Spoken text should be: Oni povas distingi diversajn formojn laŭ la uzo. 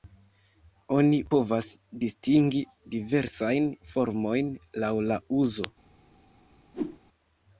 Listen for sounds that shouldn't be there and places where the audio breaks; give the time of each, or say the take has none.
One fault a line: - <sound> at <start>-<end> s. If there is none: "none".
- whoosh at 6.7-7.0 s